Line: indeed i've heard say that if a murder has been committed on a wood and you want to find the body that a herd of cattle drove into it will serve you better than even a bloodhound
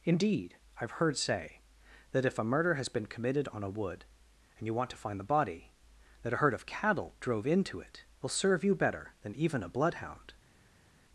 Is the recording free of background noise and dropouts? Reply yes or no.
yes